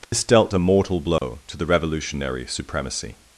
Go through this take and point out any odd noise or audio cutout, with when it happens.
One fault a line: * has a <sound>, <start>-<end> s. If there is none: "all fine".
* has a dropout, 0.0-0.1 s
* has a dropout, 1.2-1.2 s